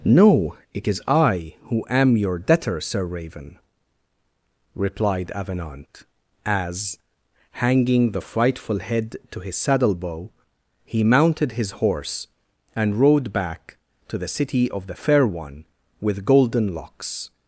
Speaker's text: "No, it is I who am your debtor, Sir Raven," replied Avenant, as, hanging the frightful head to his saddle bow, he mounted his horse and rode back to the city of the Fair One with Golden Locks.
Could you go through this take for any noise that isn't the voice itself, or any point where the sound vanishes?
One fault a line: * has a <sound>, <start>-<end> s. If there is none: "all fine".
all fine